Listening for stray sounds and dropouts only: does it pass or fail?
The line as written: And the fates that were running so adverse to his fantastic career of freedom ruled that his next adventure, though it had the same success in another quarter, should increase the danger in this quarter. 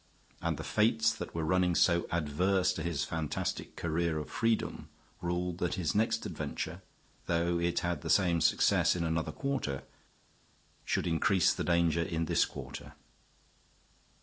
pass